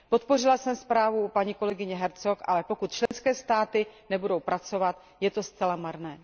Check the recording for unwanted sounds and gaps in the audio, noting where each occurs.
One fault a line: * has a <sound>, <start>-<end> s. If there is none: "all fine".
* has a dropout, 3.1-3.1 s